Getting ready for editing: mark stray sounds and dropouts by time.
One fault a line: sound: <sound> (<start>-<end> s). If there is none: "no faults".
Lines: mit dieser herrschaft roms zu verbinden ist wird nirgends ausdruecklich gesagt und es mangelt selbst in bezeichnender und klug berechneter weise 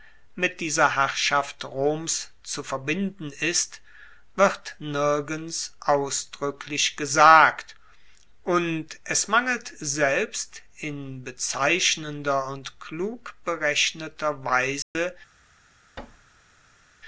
sound: dropout (14.8-15.0 s)
sound: thud (16.0-16.9 s)